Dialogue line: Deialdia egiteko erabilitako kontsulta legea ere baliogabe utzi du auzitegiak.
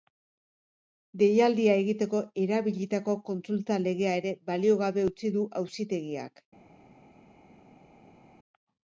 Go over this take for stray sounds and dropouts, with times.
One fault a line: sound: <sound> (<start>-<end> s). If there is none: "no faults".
no faults